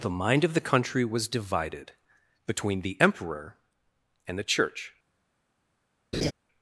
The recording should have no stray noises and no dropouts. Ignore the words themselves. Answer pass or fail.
fail